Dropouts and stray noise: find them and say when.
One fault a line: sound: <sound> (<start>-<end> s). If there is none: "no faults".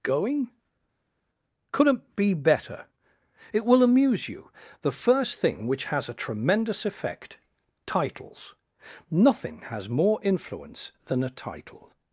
no faults